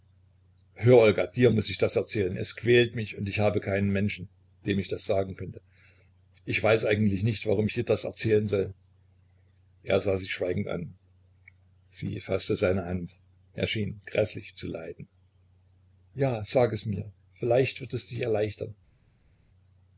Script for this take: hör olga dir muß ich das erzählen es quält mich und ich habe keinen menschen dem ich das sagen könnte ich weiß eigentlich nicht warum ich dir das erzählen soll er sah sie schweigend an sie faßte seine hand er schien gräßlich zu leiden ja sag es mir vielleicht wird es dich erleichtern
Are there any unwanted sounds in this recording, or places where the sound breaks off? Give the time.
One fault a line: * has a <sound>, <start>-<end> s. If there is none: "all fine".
all fine